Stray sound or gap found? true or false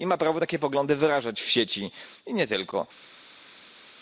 false